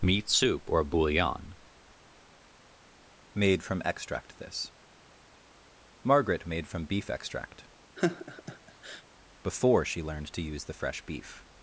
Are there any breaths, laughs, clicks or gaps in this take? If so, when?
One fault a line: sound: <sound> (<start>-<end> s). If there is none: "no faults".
sound: laugh (8.0-9.0 s)